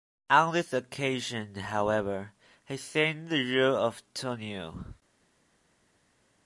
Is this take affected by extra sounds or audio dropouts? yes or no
no